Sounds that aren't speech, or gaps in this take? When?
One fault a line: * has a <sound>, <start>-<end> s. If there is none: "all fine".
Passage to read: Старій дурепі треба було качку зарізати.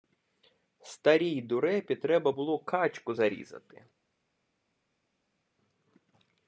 all fine